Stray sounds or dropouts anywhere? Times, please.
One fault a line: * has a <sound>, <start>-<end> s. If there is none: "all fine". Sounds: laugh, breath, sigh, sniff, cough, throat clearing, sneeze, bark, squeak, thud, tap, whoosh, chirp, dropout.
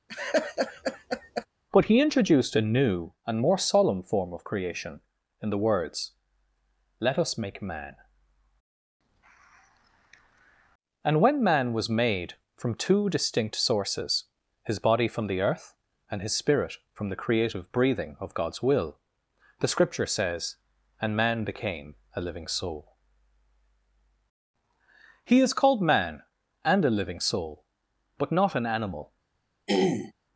* has a laugh, 0.1-1.5 s
* has a throat clearing, 29.7-30.1 s